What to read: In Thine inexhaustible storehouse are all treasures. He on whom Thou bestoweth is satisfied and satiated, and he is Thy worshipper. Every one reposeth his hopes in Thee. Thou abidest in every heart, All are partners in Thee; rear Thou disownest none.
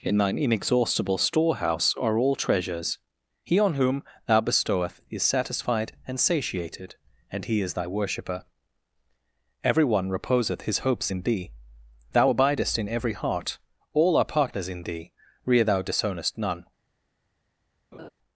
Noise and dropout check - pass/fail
fail